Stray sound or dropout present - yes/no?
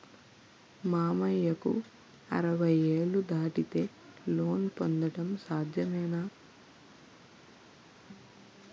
no